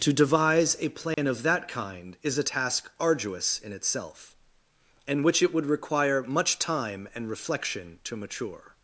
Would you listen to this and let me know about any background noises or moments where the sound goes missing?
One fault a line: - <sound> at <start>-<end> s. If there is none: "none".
- dropout at 1.1-1.2 s